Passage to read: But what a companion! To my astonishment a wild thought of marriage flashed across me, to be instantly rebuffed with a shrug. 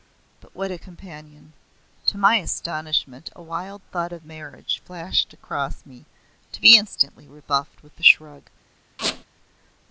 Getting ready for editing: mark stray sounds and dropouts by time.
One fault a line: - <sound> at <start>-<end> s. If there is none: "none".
- squeak at 9.0-9.2 s